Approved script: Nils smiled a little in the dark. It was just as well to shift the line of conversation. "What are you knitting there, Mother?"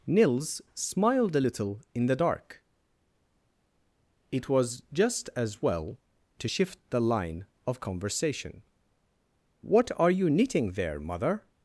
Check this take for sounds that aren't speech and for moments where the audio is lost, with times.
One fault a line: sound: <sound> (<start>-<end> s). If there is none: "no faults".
no faults